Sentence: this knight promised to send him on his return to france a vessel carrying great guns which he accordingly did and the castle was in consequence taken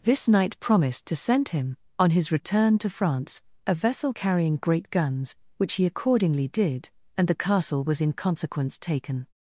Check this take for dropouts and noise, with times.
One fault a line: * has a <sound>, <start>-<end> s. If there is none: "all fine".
all fine